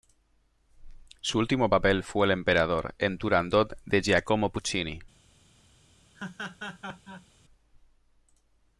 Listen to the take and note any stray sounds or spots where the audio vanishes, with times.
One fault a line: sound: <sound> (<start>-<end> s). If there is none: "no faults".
sound: laugh (6.1-7.3 s)